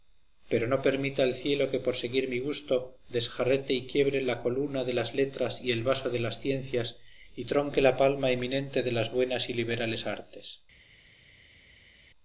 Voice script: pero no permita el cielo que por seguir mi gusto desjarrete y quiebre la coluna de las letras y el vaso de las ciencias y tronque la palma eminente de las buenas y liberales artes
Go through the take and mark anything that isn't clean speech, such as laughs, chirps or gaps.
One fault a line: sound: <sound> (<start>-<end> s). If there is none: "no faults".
no faults